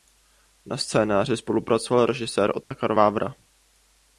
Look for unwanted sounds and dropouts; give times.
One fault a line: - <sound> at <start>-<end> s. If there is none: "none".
- dropout at 2.6-2.7 s